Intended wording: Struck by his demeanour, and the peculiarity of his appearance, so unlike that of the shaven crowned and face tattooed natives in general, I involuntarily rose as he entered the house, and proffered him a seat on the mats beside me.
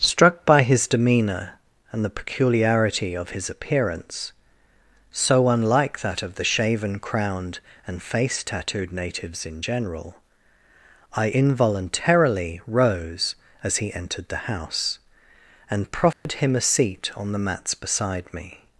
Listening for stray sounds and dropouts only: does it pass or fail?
fail